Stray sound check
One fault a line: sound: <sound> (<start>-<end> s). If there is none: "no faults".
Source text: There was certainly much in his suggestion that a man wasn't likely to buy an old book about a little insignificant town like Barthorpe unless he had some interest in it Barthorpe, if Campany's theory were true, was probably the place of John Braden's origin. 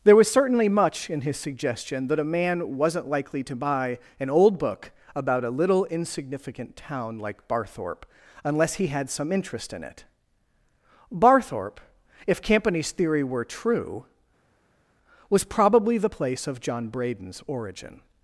no faults